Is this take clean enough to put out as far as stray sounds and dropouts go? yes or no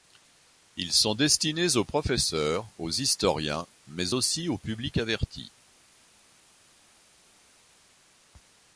yes